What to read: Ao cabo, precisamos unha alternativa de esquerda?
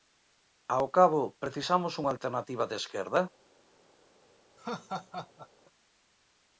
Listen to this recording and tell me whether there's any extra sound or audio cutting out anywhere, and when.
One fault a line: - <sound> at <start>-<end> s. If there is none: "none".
- laugh at 4.6-5.5 s